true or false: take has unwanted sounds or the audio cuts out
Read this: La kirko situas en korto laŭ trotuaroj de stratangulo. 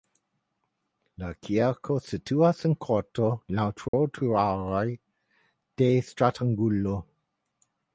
true